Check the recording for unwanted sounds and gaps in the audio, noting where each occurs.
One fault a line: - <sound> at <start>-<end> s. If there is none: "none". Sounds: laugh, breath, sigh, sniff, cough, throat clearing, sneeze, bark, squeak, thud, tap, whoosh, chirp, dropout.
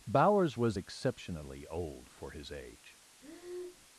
- breath at 3.2-3.9 s